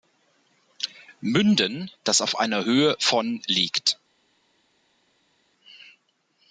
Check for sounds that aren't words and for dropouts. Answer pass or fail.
pass